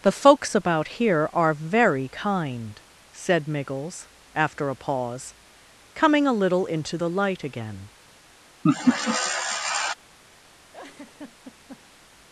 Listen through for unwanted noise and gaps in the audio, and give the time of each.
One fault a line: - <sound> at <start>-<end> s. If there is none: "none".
- laugh at 8.6-9.9 s
- laugh at 10.7-12.0 s